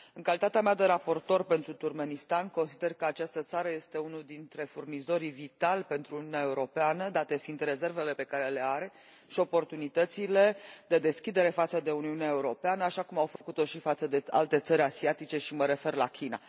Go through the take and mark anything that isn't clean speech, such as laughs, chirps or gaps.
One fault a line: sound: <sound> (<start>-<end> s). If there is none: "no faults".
sound: dropout (13.4-13.4 s)